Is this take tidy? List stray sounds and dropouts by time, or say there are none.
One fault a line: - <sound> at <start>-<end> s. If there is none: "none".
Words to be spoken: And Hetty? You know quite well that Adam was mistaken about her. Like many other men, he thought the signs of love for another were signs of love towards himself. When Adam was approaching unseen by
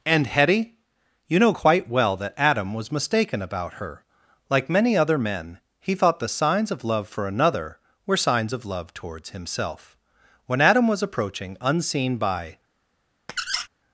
- squeak at 13.3-13.7 s